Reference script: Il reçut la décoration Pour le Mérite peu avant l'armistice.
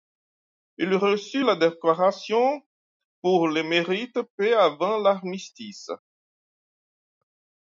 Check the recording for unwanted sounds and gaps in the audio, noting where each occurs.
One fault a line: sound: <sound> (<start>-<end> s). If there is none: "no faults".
no faults